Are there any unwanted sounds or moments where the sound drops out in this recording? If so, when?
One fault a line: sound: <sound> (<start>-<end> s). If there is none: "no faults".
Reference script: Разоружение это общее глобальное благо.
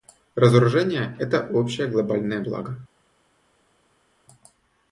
no faults